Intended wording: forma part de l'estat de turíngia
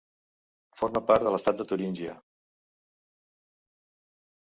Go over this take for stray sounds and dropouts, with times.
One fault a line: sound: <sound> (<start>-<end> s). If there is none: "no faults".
no faults